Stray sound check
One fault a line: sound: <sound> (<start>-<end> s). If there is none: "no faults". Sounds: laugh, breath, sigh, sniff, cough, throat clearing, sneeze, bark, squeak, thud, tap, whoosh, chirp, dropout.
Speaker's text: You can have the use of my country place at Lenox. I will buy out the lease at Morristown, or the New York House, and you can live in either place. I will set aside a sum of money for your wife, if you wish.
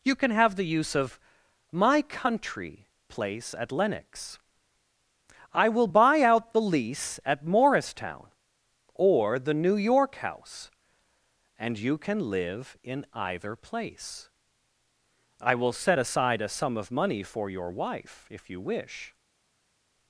no faults